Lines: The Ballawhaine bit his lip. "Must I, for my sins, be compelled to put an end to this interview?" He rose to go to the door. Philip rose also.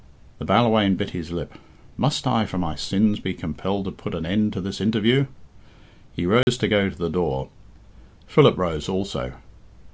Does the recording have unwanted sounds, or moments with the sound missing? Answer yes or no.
yes